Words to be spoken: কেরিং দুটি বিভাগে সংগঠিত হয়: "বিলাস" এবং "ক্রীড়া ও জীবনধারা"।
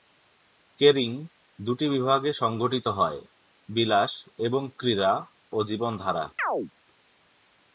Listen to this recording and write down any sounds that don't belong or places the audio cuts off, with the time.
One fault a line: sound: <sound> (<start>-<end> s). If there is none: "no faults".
sound: chirp (6.4-6.7 s)